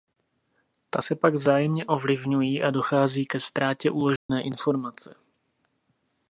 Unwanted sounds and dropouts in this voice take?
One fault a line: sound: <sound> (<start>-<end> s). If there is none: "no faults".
sound: dropout (4.2-4.3 s)